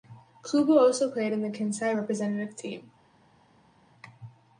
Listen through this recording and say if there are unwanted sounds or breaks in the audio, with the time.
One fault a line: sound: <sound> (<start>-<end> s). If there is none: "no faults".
no faults